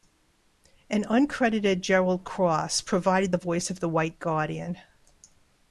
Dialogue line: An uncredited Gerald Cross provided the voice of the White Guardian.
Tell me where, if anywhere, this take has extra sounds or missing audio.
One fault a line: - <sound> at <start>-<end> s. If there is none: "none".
none